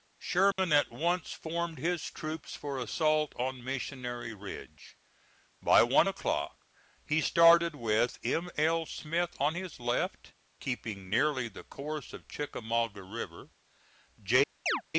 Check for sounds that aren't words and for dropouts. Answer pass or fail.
fail